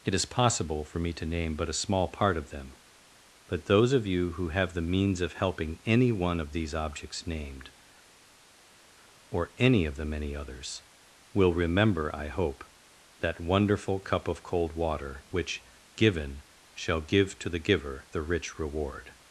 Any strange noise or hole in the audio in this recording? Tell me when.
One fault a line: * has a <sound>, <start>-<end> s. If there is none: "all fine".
all fine